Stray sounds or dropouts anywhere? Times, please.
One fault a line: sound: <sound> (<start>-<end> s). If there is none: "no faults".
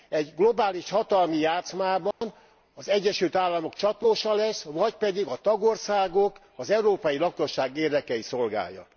sound: dropout (2.1-2.2 s)